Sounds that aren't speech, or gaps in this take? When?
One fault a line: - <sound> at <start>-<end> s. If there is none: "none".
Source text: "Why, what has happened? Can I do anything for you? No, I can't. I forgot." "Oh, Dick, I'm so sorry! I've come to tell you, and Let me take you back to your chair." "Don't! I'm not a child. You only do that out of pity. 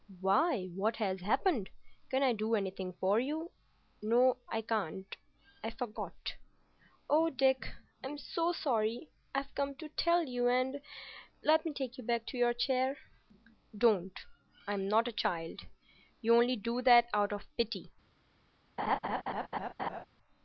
- laugh at 18.8-20.0 s